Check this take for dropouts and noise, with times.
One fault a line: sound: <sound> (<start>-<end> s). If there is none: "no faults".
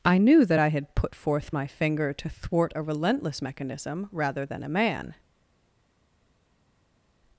no faults